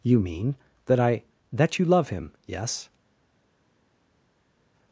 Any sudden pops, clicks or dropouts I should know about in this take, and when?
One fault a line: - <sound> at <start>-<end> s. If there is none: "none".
none